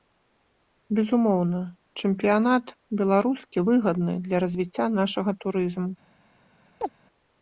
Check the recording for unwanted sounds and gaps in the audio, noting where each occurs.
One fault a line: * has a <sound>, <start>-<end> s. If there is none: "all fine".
* has a chirp, 6.8-6.9 s